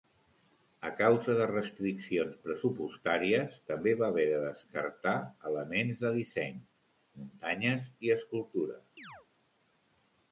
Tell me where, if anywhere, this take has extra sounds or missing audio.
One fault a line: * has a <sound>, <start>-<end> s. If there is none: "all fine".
* has a chirp, 9.0-9.3 s